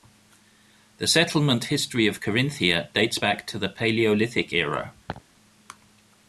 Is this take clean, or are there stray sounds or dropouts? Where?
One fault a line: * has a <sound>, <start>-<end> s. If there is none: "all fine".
* has a laugh, 5.1-5.2 s